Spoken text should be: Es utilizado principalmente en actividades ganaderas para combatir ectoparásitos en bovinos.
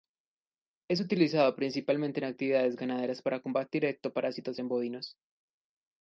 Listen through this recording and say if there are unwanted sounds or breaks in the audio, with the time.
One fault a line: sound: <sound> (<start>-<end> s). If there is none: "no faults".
no faults